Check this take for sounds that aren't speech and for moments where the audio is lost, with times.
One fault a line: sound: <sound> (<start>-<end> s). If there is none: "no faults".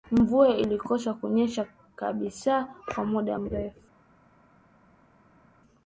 no faults